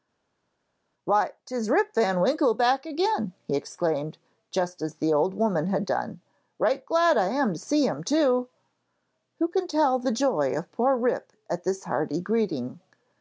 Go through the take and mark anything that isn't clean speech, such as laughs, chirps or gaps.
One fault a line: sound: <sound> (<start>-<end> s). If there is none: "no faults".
no faults